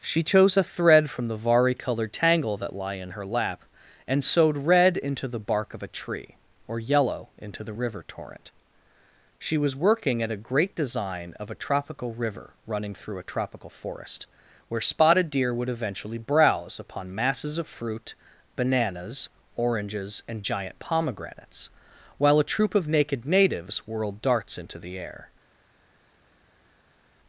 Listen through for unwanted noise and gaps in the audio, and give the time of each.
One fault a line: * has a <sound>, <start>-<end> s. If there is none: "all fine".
all fine